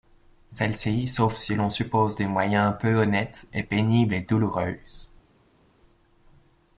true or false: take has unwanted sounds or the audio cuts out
false